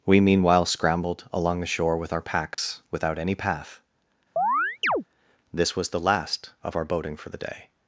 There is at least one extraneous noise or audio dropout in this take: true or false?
true